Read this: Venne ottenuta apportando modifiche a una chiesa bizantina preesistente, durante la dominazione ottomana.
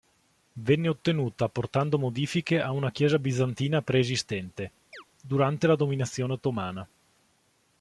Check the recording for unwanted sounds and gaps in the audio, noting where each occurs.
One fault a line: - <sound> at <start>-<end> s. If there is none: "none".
- chirp at 4.9-5.0 s